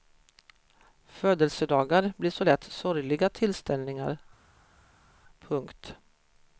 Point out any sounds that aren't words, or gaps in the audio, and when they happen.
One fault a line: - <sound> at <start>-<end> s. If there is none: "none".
none